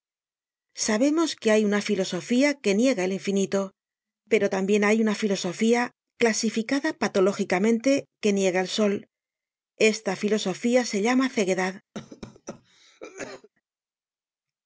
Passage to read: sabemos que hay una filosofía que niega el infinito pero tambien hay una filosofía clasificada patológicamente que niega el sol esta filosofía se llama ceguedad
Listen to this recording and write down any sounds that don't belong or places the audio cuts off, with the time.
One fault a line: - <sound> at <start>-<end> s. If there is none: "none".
- cough at 11.9-13.5 s